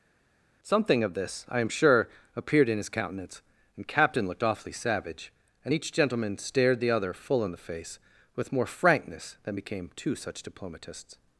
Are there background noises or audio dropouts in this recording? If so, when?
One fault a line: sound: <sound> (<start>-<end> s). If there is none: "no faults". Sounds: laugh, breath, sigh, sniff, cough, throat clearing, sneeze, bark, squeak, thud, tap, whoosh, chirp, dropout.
no faults